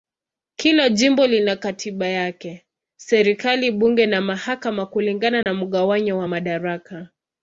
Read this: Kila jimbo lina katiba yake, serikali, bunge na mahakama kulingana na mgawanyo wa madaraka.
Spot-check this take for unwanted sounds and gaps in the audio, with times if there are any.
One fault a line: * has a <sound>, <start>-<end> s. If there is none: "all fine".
* has a dropout, 5.4-5.5 s